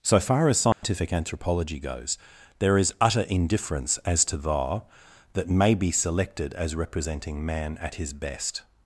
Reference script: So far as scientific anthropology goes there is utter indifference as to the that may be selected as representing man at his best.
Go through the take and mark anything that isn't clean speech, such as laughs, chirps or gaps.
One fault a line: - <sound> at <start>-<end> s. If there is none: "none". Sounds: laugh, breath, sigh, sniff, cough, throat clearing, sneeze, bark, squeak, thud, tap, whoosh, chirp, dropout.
- dropout at 0.7-0.8 s